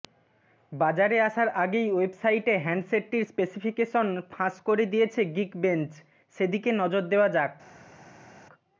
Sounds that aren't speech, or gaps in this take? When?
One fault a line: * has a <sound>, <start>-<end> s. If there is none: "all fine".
all fine